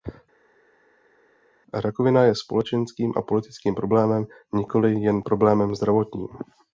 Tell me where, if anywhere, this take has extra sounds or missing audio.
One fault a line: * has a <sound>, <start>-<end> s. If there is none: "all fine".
all fine